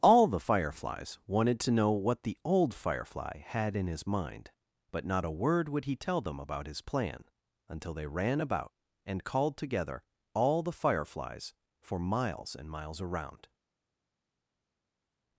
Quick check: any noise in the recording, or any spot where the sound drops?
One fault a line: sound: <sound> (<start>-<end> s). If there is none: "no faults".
no faults